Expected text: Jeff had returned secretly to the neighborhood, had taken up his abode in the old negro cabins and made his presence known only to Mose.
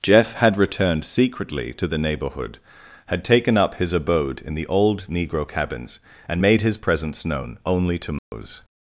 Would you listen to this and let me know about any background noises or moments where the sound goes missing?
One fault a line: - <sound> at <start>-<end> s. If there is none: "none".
- dropout at 8.2-8.3 s